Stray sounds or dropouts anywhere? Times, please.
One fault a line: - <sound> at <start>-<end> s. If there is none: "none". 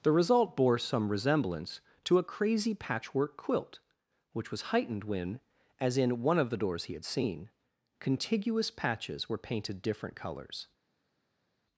none